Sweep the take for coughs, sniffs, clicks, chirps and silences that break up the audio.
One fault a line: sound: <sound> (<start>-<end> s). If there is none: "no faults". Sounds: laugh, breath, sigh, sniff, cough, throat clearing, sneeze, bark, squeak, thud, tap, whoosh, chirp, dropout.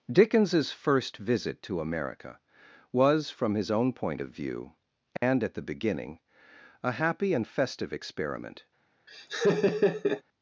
sound: dropout (5.2-5.2 s)
sound: laugh (9.1-10.2 s)